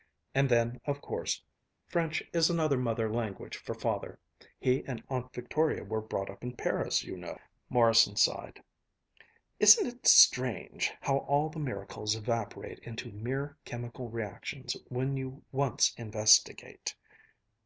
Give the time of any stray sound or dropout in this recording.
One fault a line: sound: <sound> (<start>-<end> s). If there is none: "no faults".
no faults